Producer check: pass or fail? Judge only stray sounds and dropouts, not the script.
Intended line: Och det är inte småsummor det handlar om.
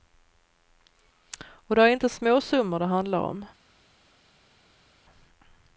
pass